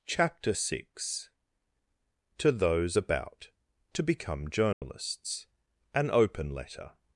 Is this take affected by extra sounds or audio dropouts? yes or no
yes